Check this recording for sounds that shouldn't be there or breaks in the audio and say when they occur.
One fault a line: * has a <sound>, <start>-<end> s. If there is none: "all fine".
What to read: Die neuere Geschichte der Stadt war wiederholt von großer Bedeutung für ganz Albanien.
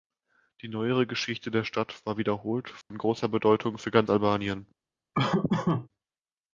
* has a dropout, 2.8-2.9 s
* has a laugh, 5.1-5.9 s